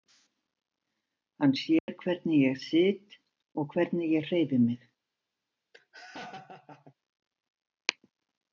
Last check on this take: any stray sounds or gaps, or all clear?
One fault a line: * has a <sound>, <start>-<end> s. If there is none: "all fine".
* has a dropout, 1.8-1.9 s
* has a laugh, 5.7-6.9 s